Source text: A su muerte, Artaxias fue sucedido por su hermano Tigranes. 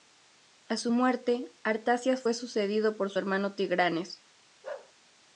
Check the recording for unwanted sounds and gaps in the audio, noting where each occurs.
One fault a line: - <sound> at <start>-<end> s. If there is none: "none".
- bark at 4.6-4.9 s